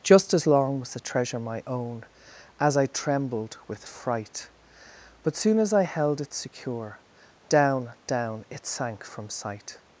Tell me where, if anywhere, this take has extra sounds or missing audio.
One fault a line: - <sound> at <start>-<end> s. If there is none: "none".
none